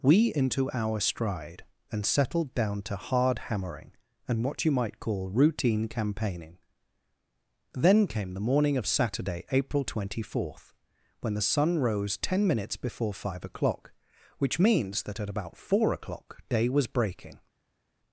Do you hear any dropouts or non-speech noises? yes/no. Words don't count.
no